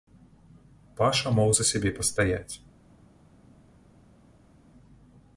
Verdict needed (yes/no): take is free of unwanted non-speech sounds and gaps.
yes